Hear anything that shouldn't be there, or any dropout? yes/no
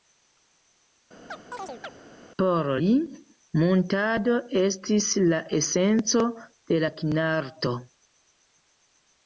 yes